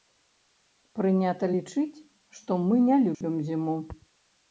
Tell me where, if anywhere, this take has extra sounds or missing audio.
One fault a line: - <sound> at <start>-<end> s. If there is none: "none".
- dropout at 3.1-3.2 s